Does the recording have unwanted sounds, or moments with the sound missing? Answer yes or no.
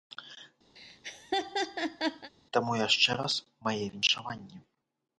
yes